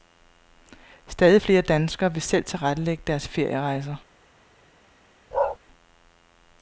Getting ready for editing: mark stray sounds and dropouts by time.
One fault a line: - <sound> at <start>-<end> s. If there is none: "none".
- bark at 5.3-5.6 s